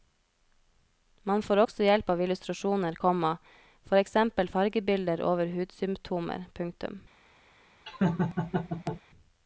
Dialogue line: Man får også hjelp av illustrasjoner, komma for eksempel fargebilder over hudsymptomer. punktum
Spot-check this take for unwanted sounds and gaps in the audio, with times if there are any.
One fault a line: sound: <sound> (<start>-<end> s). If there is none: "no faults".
sound: laugh (7.9-9.0 s)